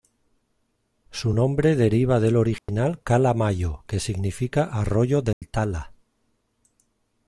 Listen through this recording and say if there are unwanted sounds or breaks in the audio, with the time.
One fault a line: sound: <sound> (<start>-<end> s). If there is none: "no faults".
sound: dropout (2.6-2.7 s)
sound: dropout (5.3-5.4 s)